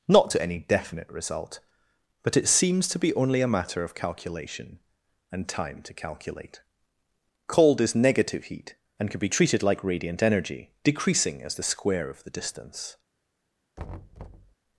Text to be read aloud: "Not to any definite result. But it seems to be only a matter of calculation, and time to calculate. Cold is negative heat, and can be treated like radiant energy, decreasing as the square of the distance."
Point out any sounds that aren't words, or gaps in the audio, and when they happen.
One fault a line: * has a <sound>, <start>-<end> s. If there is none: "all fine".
* has a thud, 13.8-14.5 s